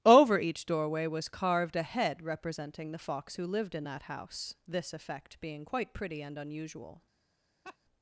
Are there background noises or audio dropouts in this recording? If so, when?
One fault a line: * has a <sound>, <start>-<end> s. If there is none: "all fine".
* has a laugh, 7.6-7.8 s